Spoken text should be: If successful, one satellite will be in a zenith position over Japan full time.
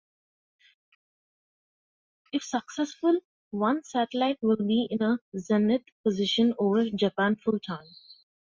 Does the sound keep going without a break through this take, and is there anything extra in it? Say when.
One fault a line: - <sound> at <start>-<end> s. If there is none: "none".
none